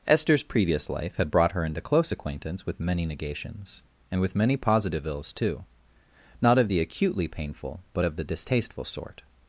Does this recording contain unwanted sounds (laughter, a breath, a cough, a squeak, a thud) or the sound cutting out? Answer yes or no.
no